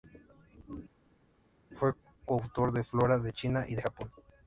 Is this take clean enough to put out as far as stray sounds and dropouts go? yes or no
yes